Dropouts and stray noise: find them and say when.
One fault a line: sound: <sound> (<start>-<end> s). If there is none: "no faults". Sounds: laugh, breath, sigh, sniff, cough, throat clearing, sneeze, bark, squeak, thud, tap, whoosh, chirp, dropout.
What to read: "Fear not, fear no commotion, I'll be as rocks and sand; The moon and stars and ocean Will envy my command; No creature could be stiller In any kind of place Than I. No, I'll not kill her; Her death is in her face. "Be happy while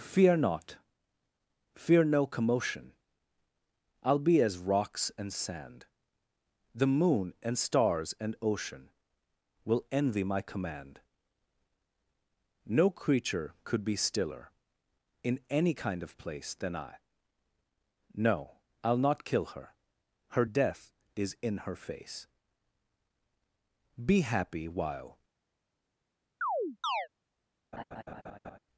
sound: chirp (26.4-27.1 s)
sound: laugh (27.7-28.6 s)